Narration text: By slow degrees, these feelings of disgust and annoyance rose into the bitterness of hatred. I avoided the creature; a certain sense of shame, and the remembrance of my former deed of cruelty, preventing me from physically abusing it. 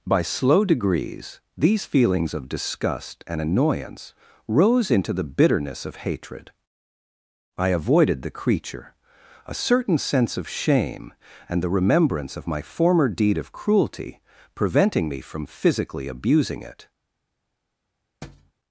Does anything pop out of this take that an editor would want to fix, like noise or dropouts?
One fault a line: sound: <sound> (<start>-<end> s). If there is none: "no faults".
sound: thud (18.2-18.5 s)